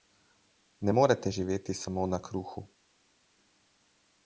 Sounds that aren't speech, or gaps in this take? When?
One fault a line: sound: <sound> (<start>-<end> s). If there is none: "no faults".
no faults